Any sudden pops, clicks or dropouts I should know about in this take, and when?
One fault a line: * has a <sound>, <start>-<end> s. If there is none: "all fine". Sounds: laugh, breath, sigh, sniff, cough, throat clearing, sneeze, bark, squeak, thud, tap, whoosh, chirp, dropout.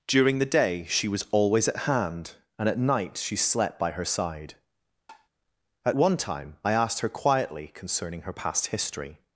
* has a tap, 5.1-5.3 s